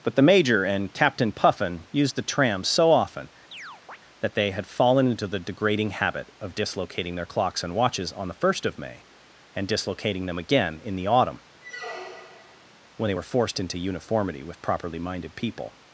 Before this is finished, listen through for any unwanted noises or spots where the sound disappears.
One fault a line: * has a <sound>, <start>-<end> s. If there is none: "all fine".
* has a chirp, 3.5-4.0 s
* has a squeak, 11.6-12.7 s